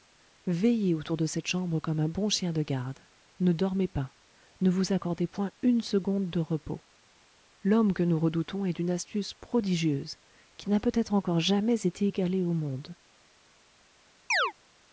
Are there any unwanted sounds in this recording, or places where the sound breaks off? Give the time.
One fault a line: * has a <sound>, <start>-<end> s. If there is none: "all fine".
* has a chirp, 14.3-14.5 s